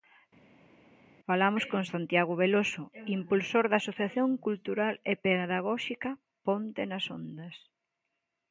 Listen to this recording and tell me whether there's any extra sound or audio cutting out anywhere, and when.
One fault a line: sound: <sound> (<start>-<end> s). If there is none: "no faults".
no faults